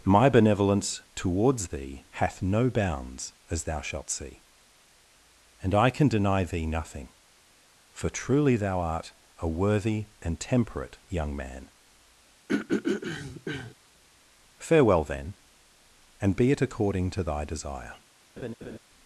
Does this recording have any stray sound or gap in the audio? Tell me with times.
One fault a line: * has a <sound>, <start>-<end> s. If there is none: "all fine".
* has a throat clearing, 12.5-13.7 s
* has a laugh, 18.4-18.8 s